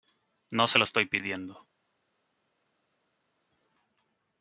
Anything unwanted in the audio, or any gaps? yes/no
no